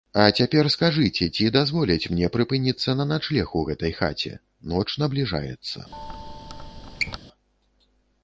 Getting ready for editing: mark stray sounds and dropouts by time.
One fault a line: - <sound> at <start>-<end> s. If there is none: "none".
- squeak at 5.9-7.2 s